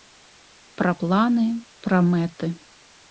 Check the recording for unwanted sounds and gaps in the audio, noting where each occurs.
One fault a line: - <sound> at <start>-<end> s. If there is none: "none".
none